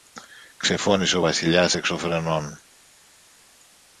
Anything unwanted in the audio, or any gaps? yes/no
no